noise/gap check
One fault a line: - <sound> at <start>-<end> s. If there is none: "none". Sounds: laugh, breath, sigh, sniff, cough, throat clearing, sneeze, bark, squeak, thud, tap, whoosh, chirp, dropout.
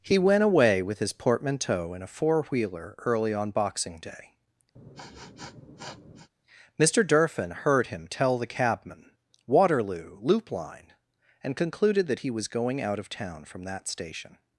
- sniff at 4.8-6.3 s